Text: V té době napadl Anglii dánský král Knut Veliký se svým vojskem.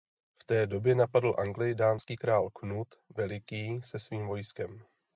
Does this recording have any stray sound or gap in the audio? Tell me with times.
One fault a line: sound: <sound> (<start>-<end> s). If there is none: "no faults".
no faults